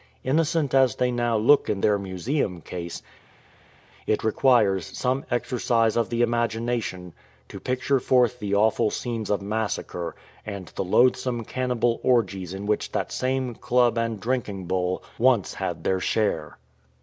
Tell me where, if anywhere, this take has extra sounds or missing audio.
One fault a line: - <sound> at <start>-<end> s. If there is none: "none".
none